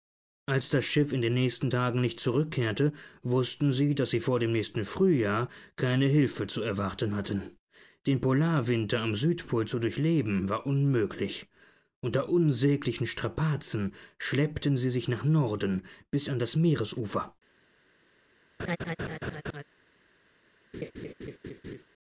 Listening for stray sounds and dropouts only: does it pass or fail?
fail